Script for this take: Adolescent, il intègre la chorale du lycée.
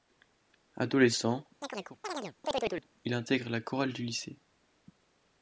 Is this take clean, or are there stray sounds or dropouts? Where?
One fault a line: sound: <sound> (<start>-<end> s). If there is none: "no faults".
sound: chirp (1.6-2.9 s)